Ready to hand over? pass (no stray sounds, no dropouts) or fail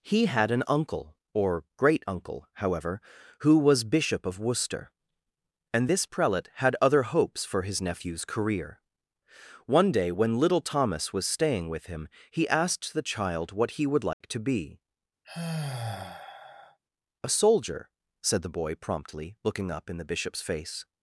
fail